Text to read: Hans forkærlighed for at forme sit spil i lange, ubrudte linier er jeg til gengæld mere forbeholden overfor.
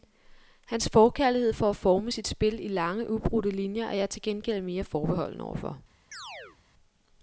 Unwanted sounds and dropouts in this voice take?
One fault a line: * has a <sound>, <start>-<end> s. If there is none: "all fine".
* has a chirp, 6.1-6.6 s